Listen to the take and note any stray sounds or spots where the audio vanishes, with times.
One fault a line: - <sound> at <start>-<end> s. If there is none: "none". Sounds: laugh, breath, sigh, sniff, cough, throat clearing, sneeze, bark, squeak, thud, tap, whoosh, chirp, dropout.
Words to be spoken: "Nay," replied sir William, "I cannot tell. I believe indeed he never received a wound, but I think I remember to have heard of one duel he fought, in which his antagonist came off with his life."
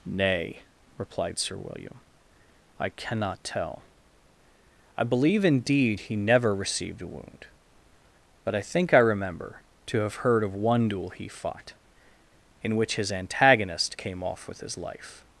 none